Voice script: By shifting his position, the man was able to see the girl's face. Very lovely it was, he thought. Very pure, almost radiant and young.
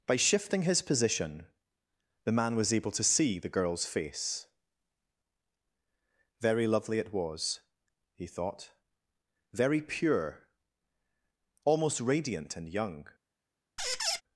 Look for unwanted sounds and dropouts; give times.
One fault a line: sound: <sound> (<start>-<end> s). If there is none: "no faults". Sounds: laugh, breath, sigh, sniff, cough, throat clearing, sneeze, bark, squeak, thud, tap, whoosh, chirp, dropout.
sound: squeak (13.8-14.2 s)